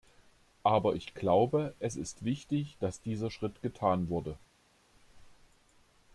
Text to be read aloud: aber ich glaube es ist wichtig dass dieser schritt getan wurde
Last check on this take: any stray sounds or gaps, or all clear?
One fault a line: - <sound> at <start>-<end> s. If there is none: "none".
none